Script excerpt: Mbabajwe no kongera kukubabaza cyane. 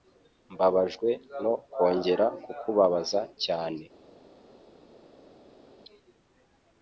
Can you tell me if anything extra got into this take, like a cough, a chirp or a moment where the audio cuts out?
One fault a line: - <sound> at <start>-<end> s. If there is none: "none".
none